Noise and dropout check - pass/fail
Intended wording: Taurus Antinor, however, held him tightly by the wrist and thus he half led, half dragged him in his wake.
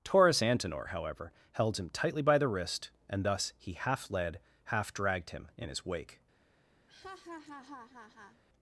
fail